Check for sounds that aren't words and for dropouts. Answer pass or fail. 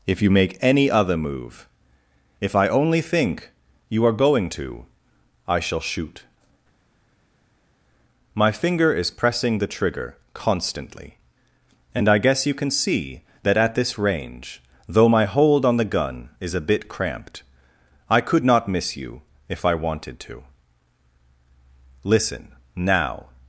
pass